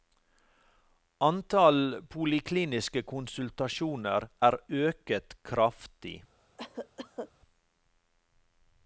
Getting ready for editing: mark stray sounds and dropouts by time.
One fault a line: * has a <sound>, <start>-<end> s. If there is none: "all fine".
* has a cough, 6.6-7.3 s